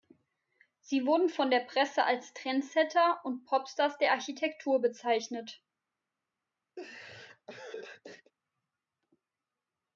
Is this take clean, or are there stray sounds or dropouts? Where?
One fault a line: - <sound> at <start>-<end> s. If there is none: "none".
- laugh at 6.8-8.3 s